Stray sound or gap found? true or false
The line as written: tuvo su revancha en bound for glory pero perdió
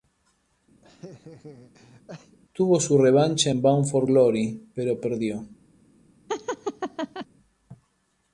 true